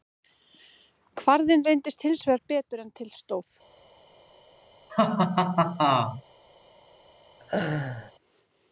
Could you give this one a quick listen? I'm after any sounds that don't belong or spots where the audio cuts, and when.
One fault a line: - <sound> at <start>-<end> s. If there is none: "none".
- laugh at 4.9-6.2 s
- laugh at 7.4-8.1 s